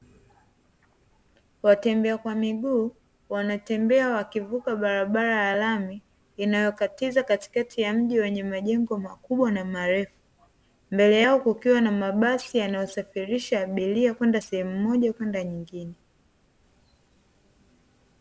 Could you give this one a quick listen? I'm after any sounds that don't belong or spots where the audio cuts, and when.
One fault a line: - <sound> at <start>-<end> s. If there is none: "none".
none